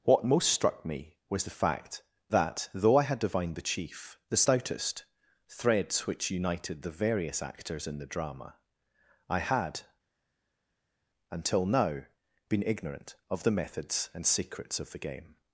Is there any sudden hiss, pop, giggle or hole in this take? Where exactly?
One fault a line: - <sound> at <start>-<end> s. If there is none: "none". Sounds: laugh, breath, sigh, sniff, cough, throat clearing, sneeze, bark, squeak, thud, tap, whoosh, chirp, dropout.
none